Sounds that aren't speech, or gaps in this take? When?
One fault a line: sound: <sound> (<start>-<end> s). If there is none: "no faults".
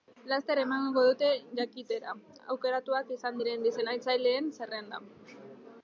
no faults